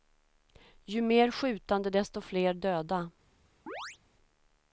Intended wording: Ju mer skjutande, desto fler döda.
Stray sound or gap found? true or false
true